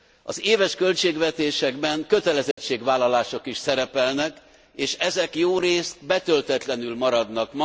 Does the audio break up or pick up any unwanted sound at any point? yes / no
yes